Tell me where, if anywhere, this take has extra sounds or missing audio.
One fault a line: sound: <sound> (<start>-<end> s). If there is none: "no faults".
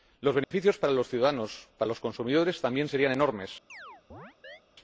sound: dropout (0.4-0.5 s)
sound: chirp (3.7-4.6 s)